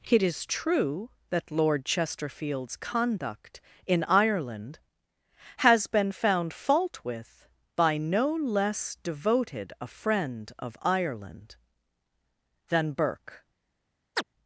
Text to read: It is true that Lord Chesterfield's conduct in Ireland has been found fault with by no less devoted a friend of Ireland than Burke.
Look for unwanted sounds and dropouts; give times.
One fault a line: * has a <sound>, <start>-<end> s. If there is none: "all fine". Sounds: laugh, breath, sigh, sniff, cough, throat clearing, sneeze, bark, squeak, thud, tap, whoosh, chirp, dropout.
* has a chirp, 14.1-14.2 s